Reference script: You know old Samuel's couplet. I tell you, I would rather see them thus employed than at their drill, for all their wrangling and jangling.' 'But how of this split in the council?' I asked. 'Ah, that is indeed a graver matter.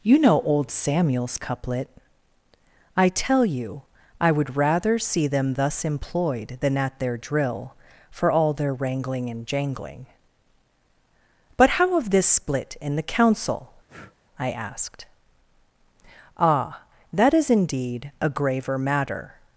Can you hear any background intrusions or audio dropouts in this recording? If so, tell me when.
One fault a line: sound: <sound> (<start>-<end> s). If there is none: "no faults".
sound: breath (13.9-14.2 s)